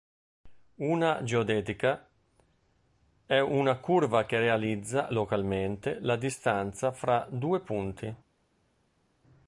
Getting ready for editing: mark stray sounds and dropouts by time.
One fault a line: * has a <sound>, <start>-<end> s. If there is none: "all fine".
all fine